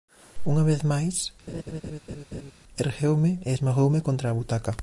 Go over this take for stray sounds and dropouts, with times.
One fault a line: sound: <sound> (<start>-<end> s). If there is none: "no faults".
sound: laugh (1.5-2.5 s)